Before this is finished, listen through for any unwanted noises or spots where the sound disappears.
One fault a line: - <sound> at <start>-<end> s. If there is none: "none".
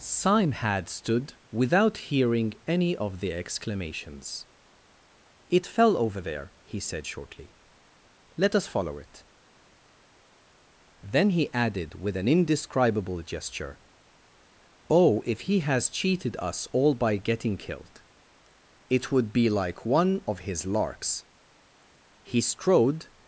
none